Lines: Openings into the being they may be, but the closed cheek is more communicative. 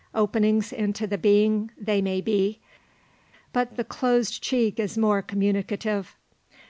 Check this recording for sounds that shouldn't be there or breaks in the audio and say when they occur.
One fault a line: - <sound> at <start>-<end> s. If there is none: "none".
none